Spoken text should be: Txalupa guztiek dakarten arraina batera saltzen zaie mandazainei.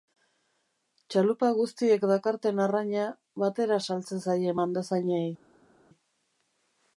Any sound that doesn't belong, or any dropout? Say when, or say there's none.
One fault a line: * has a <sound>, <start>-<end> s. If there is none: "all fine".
all fine